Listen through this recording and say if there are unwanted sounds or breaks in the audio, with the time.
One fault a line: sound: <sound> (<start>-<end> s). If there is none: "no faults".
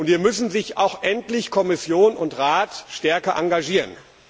no faults